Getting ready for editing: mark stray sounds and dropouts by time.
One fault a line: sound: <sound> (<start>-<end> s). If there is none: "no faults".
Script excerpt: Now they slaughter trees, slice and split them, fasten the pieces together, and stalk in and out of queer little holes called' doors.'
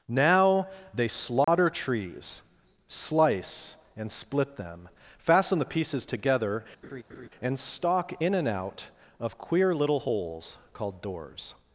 sound: dropout (1.4-1.5 s)
sound: laugh (6.8-7.3 s)